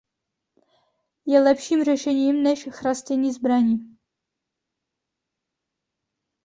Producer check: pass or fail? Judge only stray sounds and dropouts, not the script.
pass